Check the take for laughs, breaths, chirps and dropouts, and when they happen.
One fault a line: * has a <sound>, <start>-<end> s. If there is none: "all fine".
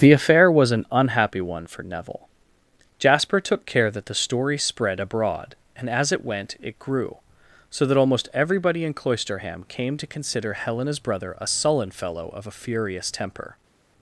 all fine